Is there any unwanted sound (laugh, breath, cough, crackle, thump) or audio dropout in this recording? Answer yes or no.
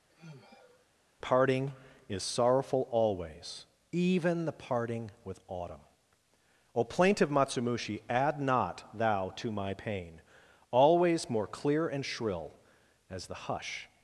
yes